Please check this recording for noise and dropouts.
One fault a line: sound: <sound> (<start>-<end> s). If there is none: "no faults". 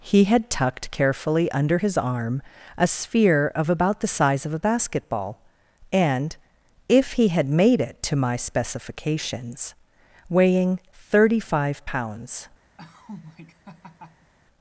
sound: laugh (12.8-14.3 s)